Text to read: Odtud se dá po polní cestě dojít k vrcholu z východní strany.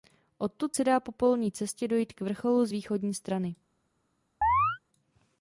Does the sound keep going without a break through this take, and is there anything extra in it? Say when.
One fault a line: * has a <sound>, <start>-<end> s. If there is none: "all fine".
* has a chirp, 4.4-4.8 s